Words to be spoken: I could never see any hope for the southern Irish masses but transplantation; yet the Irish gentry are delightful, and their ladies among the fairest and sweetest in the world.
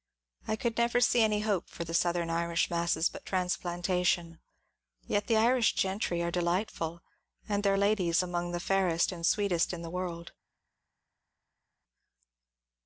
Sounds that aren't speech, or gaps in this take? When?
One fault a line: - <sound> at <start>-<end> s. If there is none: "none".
none